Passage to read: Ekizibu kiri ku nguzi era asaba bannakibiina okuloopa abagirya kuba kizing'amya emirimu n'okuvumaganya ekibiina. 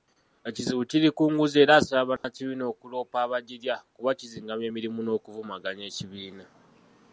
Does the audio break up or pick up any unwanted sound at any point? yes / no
yes